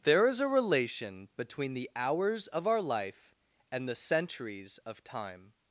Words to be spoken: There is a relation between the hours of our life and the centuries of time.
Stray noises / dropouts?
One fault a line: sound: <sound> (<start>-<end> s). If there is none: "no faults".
no faults